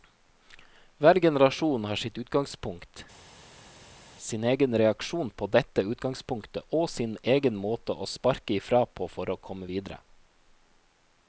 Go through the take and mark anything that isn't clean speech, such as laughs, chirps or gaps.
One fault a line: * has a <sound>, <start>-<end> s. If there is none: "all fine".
all fine